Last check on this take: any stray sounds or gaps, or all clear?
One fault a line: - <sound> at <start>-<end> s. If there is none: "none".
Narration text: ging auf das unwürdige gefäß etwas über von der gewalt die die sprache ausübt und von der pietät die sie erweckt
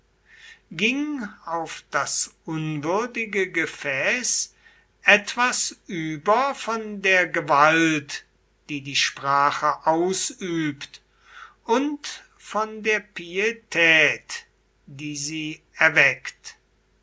none